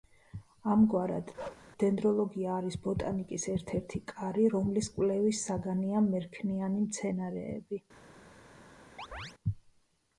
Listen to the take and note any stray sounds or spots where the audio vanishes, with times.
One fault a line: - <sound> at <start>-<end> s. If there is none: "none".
- bark at 1.4-1.7 s
- chirp at 9.0-9.3 s